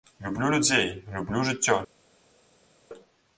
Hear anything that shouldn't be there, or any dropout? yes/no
no